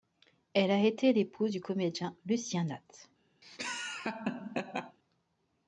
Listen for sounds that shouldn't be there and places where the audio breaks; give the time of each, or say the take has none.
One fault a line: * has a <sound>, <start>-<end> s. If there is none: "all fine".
* has a laugh, 3.4-5.0 s